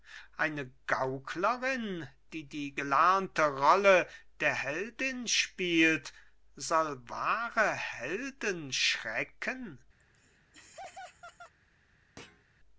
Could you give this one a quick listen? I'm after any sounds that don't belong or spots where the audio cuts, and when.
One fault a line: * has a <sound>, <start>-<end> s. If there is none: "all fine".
* has a laugh, 10.0-11.5 s
* has a thud, 12.2-12.4 s